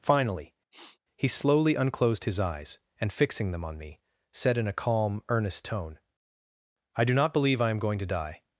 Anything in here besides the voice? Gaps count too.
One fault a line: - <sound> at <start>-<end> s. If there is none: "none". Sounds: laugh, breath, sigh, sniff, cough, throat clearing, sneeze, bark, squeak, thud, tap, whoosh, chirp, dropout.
- sniff at 0.7-1.0 s